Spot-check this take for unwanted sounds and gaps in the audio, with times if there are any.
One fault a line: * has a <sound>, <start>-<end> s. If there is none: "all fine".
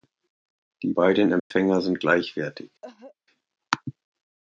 * has a dropout, 1.4-1.5 s
* has a cough, 2.8-3.2 s